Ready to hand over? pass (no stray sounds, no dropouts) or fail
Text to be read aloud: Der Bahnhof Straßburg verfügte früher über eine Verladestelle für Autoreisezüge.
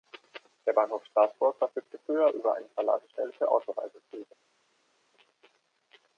pass